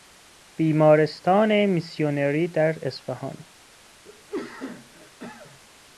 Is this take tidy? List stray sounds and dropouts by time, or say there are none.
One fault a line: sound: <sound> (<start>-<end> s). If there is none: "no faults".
sound: cough (4.0-5.6 s)